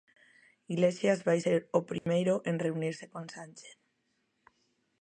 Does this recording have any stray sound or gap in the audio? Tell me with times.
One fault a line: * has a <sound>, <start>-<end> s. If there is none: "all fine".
* has a dropout, 2.0-2.1 s